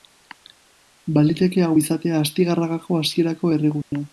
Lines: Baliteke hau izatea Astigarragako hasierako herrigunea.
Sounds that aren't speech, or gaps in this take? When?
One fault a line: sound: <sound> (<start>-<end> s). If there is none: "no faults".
sound: dropout (3.8-3.9 s)